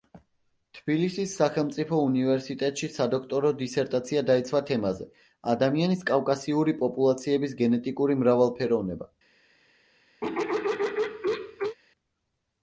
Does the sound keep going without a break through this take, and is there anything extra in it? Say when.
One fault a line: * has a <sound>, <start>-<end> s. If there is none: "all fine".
* has a throat clearing, 10.2-11.8 s